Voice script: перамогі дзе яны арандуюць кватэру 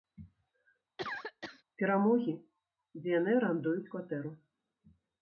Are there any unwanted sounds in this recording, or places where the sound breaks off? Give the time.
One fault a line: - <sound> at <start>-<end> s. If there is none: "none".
- cough at 1.0-1.6 s